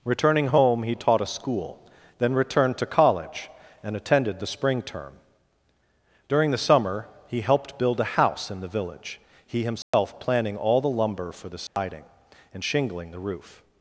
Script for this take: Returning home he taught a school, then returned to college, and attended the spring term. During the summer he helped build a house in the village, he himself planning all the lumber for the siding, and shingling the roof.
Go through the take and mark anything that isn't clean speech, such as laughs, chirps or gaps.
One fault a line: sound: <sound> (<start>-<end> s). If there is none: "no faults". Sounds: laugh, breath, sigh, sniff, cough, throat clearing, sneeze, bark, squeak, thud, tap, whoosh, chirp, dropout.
sound: dropout (9.8-9.9 s)
sound: dropout (11.7-11.8 s)